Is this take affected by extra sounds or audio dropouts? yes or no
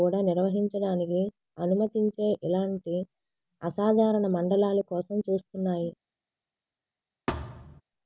yes